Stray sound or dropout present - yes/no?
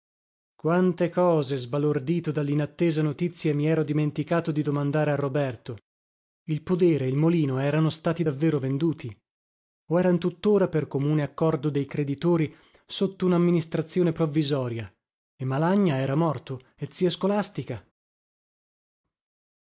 no